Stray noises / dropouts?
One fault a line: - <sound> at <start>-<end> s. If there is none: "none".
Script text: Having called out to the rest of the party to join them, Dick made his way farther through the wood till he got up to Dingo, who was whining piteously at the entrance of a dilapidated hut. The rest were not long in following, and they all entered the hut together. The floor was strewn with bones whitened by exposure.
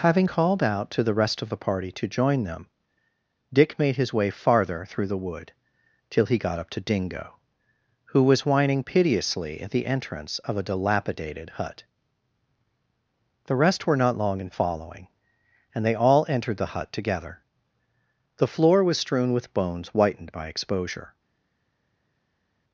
none